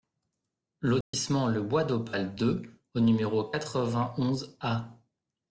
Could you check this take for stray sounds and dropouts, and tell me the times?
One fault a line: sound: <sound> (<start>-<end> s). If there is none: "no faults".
sound: dropout (1.0-1.1 s)